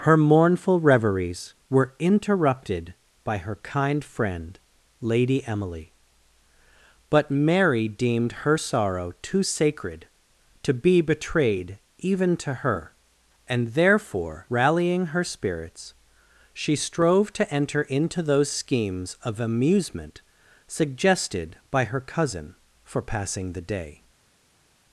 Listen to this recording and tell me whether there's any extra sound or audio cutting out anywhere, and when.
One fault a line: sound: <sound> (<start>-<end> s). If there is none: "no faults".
no faults